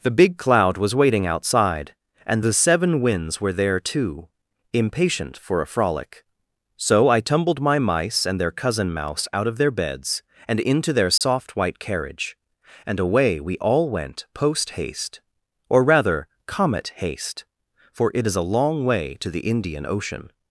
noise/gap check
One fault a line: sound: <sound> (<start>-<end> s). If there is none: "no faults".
sound: dropout (11.2-11.2 s)